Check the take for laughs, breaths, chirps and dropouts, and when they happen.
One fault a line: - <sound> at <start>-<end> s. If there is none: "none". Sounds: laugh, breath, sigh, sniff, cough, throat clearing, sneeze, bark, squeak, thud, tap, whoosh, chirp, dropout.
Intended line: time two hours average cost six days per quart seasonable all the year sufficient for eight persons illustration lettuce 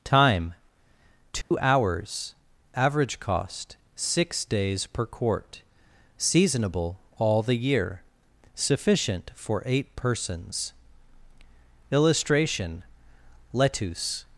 - dropout at 1.4-1.5 s